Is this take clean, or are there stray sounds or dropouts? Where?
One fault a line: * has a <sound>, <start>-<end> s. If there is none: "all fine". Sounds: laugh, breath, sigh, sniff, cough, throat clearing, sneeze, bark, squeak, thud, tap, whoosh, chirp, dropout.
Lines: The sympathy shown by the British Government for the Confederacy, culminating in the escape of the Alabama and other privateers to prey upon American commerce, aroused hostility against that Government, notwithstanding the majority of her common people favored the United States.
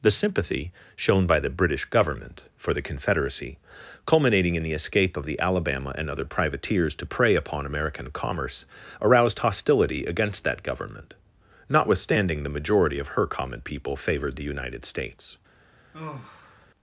* has a sigh, 15.9-16.7 s